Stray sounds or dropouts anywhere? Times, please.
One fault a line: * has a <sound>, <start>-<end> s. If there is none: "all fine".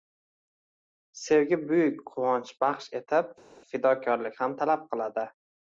all fine